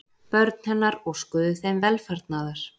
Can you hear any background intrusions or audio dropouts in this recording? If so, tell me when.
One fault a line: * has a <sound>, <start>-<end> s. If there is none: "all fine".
all fine